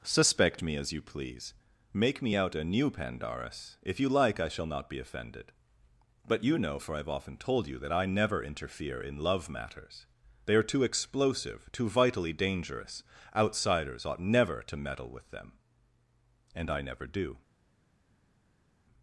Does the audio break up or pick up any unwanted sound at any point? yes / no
no